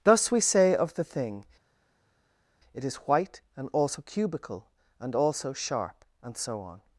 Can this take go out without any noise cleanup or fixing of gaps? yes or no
yes